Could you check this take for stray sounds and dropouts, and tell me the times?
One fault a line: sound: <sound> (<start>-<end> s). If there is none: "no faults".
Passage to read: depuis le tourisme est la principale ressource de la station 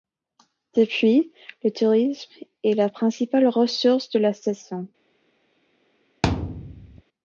sound: thud (6.2-7.0 s)